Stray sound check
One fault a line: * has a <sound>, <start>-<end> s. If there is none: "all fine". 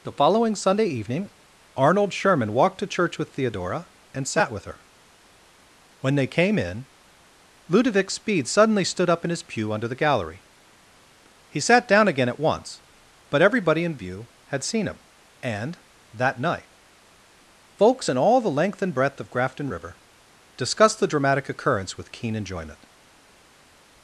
all fine